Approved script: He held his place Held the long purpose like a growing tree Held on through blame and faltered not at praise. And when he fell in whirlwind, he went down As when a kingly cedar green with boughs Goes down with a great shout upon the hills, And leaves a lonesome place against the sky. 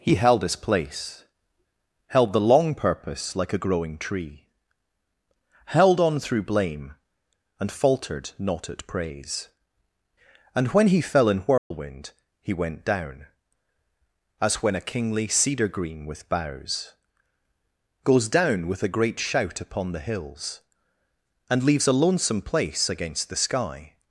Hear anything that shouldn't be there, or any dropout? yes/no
yes